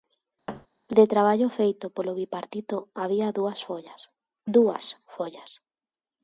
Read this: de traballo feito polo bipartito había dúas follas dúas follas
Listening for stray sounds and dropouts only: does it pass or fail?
fail